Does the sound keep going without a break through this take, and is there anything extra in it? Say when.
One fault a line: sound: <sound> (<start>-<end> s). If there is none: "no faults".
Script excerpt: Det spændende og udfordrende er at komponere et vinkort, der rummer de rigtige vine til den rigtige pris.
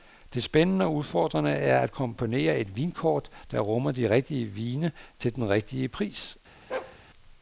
sound: bark (6.7-7.0 s)